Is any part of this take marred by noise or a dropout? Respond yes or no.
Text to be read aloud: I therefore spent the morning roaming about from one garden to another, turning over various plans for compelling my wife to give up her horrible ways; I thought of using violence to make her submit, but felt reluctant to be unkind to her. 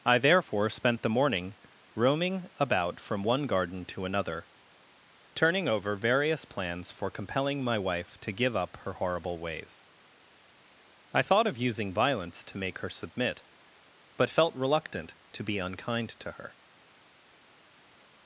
no